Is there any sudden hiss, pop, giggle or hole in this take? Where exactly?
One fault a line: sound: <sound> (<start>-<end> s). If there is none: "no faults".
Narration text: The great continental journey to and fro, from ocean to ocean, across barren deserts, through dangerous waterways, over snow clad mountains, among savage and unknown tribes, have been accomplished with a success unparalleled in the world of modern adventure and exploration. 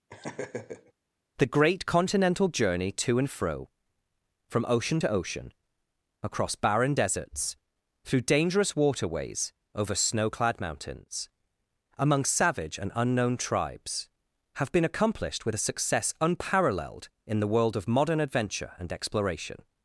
sound: laugh (0.1-0.9 s)